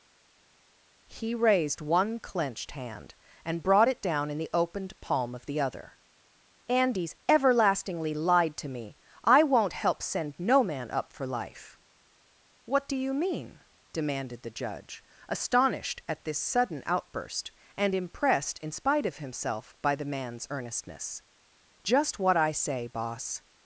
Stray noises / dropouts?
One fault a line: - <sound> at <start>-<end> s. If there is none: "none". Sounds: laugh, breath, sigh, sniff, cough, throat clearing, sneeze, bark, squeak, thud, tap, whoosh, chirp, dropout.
none